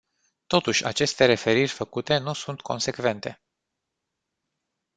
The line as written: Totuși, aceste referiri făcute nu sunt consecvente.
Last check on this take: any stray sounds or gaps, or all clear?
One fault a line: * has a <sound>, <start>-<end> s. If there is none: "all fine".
all fine